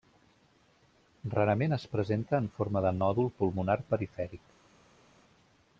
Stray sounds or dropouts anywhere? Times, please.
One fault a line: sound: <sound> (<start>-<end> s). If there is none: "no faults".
no faults